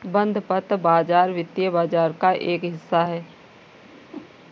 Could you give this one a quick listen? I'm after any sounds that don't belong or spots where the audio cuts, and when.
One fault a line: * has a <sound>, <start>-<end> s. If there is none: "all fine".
* has a whoosh, 3.8-4.4 s